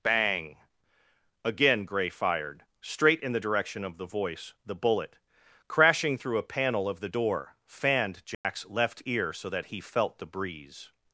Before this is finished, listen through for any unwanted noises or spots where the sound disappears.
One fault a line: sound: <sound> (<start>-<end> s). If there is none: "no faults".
sound: dropout (8.3-8.4 s)